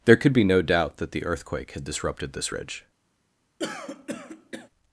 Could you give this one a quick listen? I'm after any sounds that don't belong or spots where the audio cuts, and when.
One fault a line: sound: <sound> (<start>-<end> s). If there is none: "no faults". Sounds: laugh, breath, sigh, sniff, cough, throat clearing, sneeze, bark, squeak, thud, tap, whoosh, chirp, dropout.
sound: throat clearing (3.6-4.7 s)